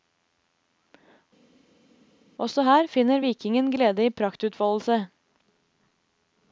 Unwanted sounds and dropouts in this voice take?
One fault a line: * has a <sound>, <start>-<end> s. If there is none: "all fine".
all fine